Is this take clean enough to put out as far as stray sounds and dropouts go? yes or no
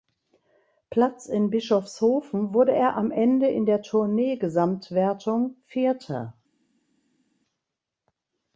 yes